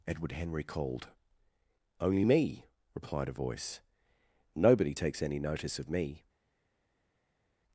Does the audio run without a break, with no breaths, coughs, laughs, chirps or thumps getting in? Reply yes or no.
yes